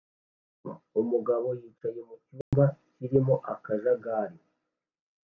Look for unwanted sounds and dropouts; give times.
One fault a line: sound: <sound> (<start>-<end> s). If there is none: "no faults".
sound: dropout (2.4-2.5 s)